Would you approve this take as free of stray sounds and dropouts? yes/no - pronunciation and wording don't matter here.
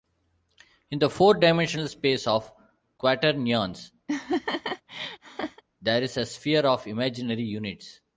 no